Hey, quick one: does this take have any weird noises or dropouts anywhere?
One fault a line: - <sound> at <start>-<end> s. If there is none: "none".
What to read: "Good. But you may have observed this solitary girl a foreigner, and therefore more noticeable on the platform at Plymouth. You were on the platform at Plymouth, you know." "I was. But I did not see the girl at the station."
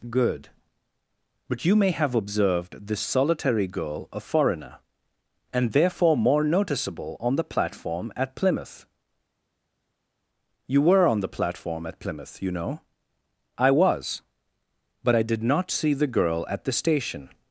none